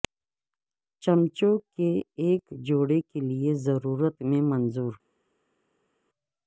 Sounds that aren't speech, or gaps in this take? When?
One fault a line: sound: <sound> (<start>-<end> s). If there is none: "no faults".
no faults